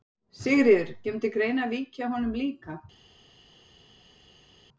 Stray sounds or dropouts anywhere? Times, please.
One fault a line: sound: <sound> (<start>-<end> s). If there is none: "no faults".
no faults